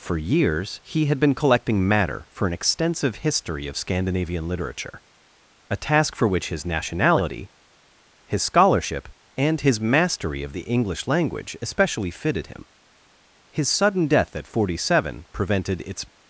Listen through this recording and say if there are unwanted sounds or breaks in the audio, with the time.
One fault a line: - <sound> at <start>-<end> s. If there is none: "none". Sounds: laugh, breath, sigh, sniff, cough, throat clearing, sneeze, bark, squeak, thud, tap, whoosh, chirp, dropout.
none